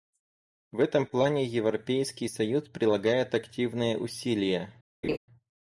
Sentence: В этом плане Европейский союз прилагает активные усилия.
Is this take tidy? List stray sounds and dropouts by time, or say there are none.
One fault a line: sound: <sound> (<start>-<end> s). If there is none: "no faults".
sound: laugh (5.0-5.2 s)